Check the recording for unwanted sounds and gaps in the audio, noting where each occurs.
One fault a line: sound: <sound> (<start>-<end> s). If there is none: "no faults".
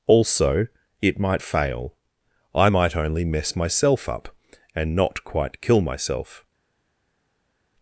no faults